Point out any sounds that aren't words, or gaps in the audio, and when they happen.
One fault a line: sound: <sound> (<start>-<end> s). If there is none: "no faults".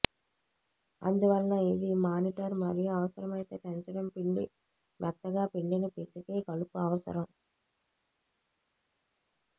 no faults